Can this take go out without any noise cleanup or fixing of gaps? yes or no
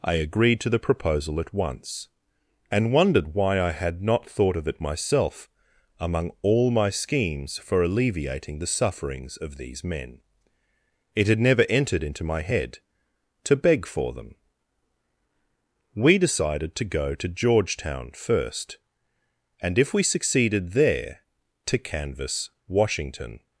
yes